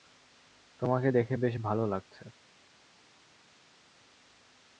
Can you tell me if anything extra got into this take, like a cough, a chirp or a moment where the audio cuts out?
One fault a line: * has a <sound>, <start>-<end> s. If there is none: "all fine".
all fine